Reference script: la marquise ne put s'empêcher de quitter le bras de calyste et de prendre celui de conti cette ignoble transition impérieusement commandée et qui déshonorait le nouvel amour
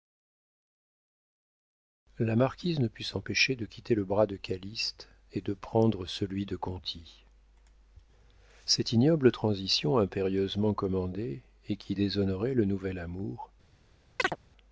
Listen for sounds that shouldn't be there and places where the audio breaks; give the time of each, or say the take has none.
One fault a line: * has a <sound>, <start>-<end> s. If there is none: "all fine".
* has a chirp, 14.2-14.4 s